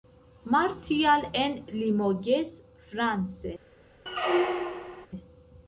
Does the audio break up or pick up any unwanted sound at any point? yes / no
yes